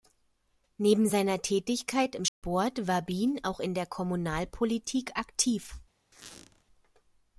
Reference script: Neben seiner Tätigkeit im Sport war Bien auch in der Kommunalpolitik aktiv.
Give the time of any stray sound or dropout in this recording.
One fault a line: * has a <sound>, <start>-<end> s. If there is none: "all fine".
* has a dropout, 2.3-2.4 s
* has a squeak, 6.1-6.6 s